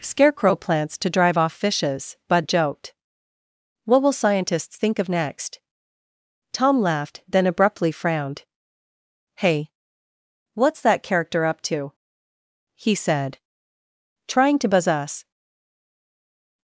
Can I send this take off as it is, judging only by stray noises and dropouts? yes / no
yes